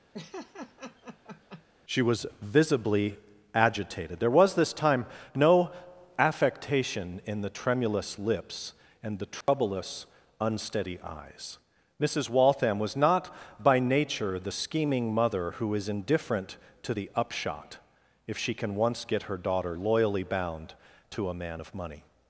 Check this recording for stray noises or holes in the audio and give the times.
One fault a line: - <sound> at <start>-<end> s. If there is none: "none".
- laugh at 0.1-1.6 s
- dropout at 9.4-9.5 s